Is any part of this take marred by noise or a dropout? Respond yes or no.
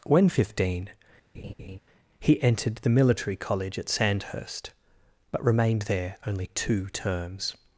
yes